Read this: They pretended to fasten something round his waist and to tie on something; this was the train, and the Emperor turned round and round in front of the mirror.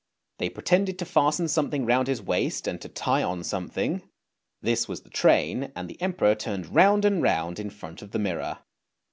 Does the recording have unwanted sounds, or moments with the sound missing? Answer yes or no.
no